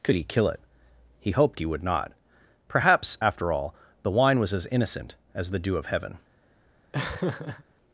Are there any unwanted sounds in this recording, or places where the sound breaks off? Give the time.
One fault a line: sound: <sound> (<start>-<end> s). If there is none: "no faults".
sound: laugh (6.9-7.6 s)